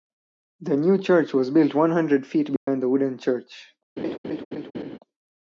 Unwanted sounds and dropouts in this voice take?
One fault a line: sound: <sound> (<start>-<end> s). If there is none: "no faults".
sound: dropout (2.6-2.7 s)
sound: laugh (4.0-5.0 s)